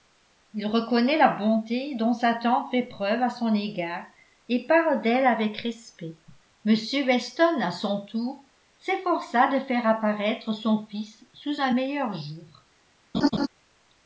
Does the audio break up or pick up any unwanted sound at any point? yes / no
yes